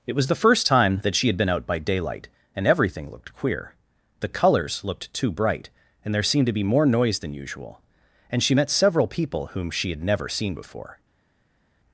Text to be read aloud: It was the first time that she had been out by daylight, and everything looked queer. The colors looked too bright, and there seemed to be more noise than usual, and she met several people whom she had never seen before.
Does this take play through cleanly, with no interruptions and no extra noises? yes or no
yes